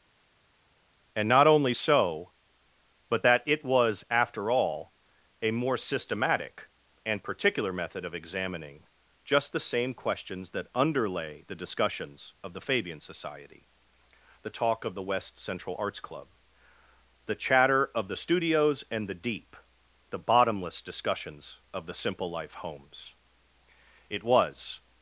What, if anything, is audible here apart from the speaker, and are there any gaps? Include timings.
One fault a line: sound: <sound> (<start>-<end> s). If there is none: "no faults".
no faults